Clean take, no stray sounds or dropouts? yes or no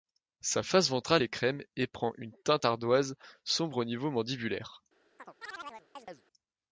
no